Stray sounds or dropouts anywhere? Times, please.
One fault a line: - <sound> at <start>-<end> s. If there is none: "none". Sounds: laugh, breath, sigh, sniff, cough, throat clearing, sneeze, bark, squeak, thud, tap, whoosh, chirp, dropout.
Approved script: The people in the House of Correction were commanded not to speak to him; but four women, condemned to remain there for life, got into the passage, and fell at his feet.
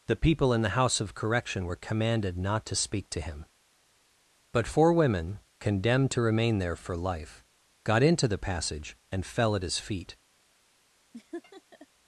- laugh at 11.1-11.9 s